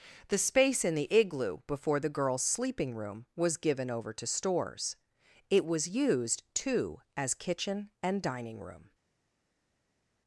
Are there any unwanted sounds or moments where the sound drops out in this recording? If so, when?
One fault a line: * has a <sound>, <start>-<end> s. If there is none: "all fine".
all fine